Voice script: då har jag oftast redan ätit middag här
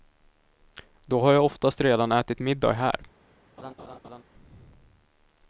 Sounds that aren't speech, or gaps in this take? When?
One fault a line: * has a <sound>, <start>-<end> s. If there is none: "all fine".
* has a laugh, 3.6-4.2 s